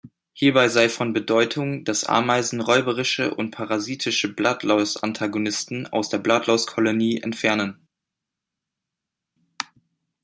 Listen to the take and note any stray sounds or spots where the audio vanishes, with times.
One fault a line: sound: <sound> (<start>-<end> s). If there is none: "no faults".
no faults